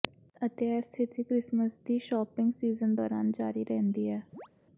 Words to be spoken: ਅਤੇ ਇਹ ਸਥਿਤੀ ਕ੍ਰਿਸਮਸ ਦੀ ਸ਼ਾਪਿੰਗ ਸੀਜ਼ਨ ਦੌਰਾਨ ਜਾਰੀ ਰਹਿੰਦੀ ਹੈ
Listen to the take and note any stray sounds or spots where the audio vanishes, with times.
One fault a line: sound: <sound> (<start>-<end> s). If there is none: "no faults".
sound: chirp (4.3-4.5 s)